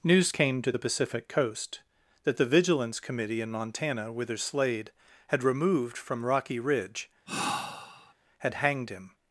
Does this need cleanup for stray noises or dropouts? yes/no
yes